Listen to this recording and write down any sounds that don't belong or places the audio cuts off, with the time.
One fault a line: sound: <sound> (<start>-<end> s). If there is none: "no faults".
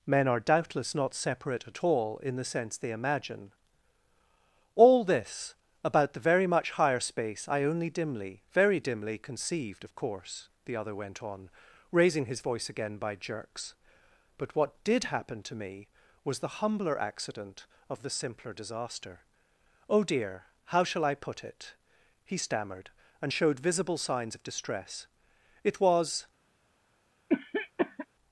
sound: cough (27.3-28.1 s)